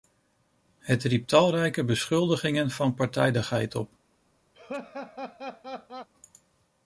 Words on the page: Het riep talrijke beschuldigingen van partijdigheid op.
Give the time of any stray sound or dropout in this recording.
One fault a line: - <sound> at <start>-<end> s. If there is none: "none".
- laugh at 4.5-6.1 s